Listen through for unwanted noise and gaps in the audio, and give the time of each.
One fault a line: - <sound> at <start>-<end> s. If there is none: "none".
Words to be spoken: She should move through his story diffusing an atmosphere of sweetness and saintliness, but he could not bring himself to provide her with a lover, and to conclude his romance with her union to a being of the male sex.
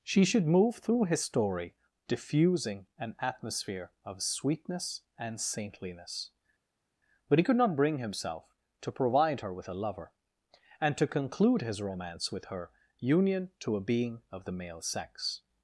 none